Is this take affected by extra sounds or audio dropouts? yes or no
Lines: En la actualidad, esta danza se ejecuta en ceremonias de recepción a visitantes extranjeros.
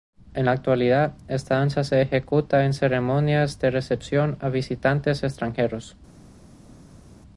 no